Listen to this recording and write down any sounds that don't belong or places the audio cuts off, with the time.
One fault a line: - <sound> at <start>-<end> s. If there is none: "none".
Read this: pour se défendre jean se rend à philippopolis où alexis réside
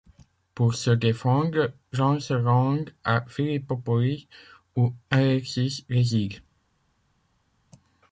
none